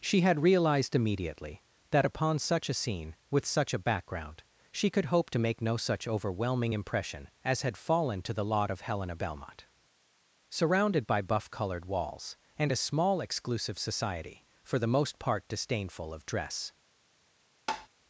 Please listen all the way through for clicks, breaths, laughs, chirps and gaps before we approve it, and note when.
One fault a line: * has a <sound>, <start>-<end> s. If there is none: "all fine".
* has a tap, 17.7-17.9 s